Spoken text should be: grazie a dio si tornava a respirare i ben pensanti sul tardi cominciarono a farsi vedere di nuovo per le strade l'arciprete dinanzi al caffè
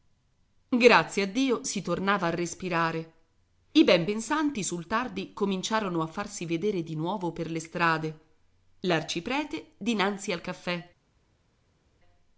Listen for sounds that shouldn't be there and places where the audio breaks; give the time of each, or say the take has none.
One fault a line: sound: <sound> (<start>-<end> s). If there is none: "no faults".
no faults